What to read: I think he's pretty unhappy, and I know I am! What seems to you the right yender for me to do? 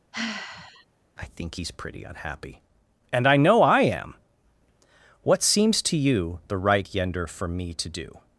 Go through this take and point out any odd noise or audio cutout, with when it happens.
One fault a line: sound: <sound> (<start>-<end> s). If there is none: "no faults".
sound: sigh (0.1-0.9 s)